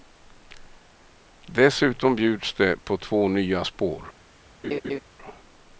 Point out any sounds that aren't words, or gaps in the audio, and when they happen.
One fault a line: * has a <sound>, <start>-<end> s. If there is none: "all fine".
* has a laugh, 4.6-5.0 s